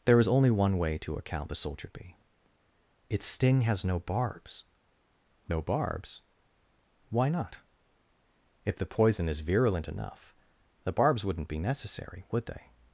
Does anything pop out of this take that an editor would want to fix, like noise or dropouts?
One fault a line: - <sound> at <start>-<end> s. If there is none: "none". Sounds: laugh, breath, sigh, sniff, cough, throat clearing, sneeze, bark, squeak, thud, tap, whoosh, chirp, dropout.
none